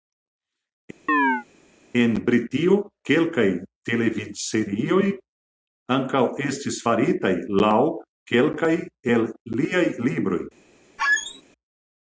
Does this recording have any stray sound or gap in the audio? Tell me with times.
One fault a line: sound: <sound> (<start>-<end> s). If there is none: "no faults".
sound: chirp (1.1-1.4 s)
sound: squeak (11.0-11.4 s)